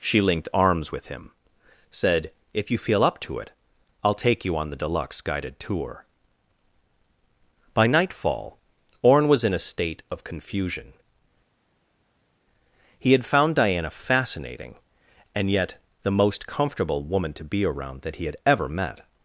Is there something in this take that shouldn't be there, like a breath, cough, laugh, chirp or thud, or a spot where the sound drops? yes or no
no